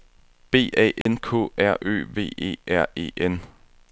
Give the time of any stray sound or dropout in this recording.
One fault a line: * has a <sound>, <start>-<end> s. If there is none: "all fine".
* has a dropout, 1.0-1.1 s